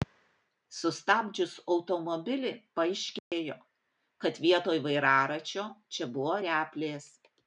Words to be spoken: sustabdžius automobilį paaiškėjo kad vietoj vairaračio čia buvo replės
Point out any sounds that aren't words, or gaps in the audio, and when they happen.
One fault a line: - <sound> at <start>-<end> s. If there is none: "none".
- dropout at 3.2-3.3 s